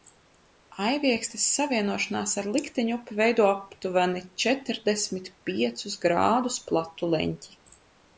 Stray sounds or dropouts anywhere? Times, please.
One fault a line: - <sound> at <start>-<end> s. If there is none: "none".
none